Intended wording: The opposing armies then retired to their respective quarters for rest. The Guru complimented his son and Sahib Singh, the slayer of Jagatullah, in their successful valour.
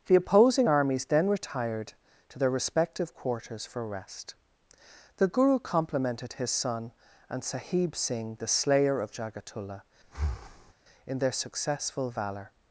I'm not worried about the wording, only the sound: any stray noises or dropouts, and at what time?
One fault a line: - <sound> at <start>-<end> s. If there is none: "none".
- breath at 10.0-10.7 s